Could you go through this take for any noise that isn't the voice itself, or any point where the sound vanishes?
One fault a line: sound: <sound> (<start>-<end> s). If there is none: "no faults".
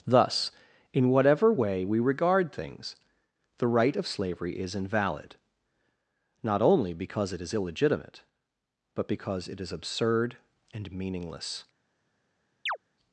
sound: chirp (12.7-12.8 s)